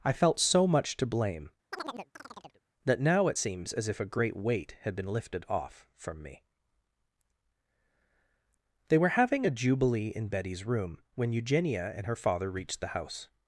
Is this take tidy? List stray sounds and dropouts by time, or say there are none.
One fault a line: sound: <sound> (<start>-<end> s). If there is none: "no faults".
sound: chirp (1.7-2.6 s)